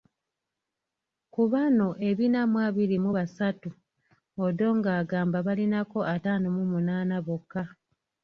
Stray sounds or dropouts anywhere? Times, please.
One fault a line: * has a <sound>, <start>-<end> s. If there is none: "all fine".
all fine